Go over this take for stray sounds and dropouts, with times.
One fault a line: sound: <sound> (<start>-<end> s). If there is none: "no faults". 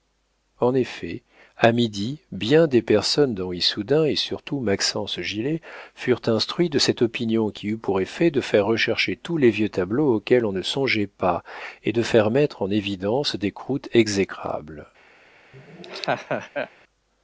sound: laugh (15.5-16.7 s)